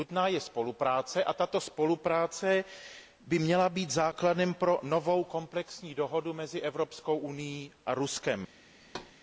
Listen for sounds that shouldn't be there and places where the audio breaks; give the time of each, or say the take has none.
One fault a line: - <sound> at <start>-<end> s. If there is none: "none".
- thud at 8.8-9.1 s